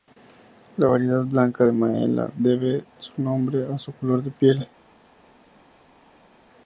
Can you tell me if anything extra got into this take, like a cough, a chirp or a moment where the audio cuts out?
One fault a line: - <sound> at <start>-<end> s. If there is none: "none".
none